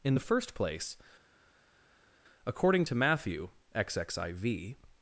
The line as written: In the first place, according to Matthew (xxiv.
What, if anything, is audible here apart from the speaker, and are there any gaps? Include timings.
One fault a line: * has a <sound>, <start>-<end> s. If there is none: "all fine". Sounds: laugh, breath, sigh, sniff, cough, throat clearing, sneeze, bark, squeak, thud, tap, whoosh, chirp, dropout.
all fine